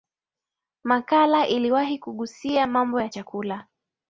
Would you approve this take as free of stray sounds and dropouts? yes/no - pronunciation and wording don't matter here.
yes